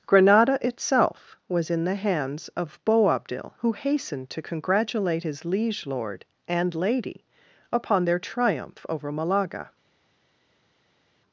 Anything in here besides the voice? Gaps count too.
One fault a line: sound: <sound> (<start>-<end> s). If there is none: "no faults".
no faults